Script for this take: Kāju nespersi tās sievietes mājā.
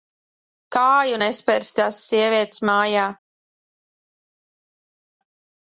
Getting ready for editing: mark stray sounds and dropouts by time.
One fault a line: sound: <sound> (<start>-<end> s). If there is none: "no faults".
no faults